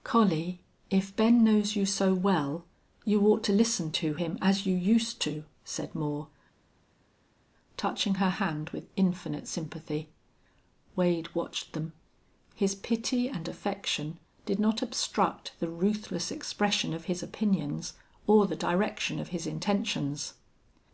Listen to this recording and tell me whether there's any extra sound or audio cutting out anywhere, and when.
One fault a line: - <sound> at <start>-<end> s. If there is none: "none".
none